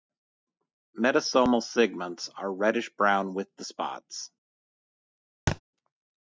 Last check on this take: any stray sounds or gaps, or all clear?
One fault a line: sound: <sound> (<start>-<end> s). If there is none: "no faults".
sound: thud (5.5-5.6 s)